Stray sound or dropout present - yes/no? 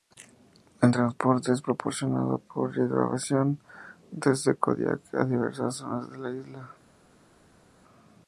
no